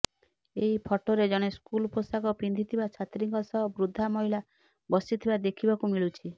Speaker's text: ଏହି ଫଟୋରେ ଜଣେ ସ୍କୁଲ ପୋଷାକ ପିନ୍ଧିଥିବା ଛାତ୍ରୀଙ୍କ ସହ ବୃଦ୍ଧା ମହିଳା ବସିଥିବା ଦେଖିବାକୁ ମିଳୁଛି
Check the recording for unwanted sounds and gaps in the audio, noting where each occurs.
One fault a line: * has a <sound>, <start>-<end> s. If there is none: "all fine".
all fine